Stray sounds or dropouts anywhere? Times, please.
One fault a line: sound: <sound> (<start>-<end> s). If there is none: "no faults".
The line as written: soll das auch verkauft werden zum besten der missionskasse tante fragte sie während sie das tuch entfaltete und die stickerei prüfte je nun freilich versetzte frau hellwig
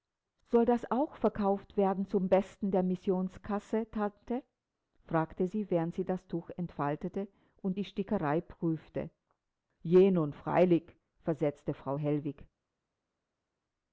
no faults